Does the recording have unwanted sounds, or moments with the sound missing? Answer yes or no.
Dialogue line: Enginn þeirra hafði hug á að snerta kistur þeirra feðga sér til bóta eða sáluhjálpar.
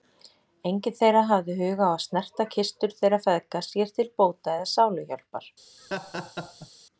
yes